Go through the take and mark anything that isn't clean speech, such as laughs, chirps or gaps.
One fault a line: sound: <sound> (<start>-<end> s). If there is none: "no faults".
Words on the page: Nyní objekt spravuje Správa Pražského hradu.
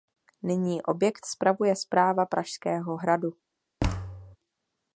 sound: thud (3.8-4.4 s)